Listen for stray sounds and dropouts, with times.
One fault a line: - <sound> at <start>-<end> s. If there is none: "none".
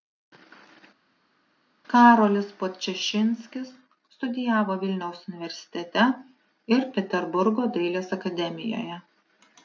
none